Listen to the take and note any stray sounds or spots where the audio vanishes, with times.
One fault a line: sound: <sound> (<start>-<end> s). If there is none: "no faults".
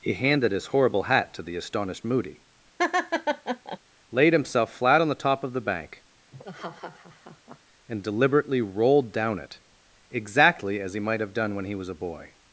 sound: laugh (2.8-3.8 s)
sound: laugh (6.3-7.6 s)